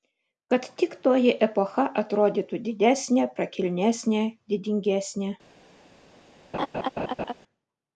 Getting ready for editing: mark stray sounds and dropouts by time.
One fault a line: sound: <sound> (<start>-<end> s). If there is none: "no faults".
sound: laugh (6.5-7.3 s)